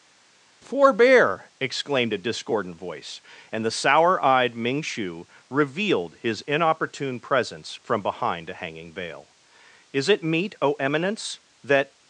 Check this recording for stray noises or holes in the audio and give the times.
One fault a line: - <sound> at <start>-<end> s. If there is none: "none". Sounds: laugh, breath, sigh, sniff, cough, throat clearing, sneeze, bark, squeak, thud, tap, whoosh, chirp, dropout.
none